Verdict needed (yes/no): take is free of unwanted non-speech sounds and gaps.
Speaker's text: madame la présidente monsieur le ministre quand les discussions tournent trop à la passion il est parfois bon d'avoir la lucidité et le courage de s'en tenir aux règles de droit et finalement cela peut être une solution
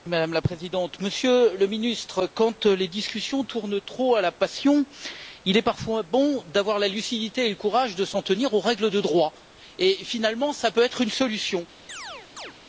no